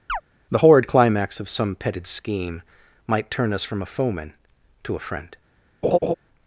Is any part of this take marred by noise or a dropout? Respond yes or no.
yes